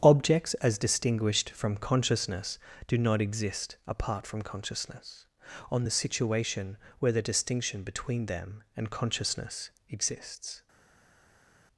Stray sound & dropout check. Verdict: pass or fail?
pass